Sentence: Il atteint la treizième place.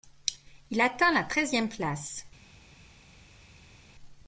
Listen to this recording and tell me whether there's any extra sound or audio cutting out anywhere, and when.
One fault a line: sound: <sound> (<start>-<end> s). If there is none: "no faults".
no faults